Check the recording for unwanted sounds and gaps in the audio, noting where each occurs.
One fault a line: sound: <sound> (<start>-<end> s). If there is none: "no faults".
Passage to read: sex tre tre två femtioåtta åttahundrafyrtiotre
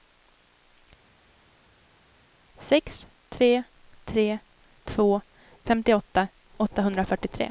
no faults